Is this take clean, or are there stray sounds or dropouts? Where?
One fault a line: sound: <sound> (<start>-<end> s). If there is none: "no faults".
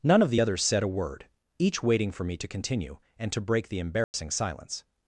sound: dropout (4.0-4.1 s)